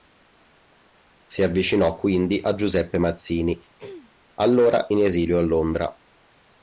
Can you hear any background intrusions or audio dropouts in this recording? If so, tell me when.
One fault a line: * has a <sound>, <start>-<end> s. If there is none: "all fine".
* has a throat clearing, 3.8-4.1 s